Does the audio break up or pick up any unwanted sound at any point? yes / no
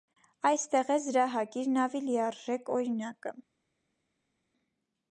no